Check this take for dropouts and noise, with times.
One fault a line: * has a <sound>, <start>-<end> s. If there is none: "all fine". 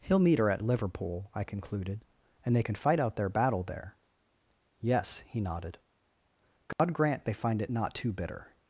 * has a dropout, 6.7-6.8 s